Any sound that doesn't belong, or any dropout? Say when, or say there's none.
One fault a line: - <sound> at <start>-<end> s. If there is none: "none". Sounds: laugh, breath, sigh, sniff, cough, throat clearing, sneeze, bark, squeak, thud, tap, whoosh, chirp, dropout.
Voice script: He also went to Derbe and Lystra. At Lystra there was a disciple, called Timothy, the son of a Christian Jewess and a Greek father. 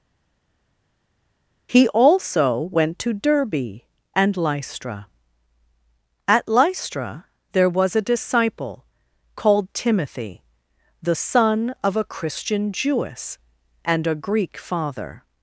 none